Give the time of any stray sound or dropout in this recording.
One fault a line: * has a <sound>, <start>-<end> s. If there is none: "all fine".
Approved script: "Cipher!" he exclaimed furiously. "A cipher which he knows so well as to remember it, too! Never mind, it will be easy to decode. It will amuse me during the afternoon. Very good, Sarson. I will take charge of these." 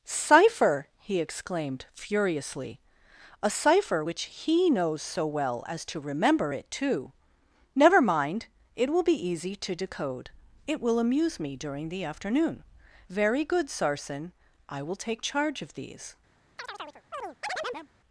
* has a chirp, 16.6-17.9 s